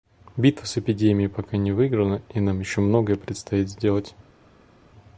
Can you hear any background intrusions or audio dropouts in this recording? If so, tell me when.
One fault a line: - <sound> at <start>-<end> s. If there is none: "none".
none